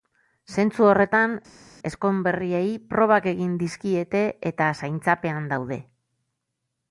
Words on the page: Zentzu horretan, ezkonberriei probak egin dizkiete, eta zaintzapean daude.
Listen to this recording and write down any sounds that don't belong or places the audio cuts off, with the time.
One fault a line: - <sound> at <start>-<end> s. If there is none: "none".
none